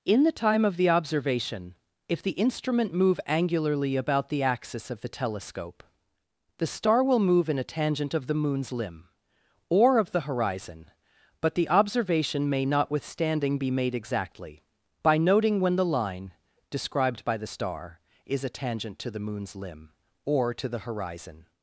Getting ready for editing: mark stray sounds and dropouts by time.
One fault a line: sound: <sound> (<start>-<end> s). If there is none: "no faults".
no faults